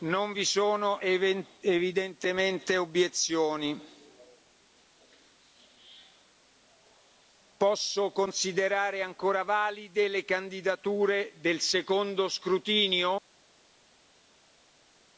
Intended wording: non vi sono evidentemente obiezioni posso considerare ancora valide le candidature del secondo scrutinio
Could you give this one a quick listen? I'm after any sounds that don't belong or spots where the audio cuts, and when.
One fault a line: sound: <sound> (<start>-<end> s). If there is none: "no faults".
no faults